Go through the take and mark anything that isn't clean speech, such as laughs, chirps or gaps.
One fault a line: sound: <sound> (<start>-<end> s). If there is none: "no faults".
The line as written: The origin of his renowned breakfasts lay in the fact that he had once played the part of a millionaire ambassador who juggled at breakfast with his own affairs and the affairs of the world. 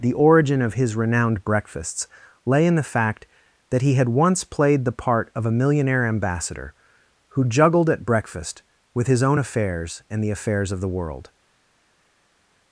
no faults